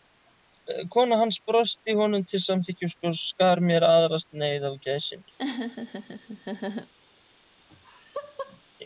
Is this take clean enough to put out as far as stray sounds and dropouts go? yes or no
no